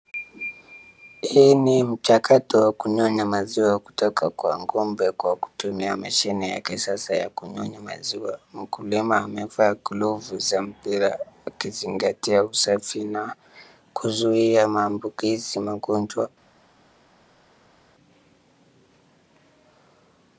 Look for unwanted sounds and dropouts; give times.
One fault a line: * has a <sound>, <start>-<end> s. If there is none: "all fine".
all fine